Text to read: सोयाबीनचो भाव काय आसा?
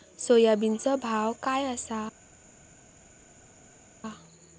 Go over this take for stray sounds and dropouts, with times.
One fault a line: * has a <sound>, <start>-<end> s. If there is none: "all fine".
all fine